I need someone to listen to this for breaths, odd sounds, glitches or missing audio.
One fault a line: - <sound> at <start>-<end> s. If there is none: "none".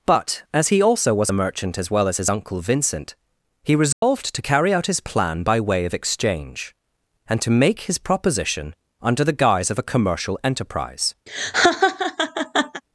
- dropout at 3.9-4.0 s
- laugh at 11.3-12.8 s